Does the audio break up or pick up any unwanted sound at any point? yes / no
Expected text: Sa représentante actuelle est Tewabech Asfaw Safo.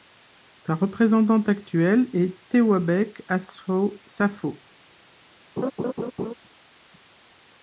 yes